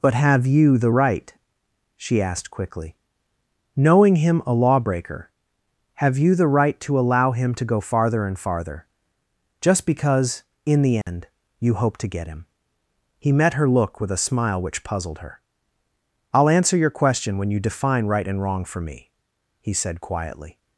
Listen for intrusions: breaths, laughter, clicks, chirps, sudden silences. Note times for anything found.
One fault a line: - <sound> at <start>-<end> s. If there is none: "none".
- dropout at 11.0-11.1 s